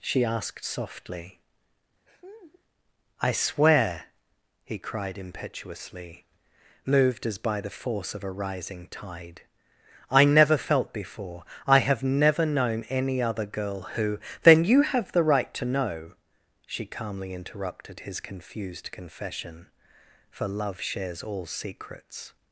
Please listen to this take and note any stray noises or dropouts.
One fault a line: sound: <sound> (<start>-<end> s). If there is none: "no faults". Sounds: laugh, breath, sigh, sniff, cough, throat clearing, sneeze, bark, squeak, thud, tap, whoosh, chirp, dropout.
sound: laugh (2.1-2.6 s)